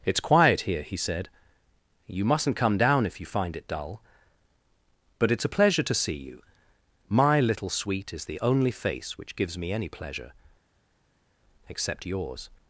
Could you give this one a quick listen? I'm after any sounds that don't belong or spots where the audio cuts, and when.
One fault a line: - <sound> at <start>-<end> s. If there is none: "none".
none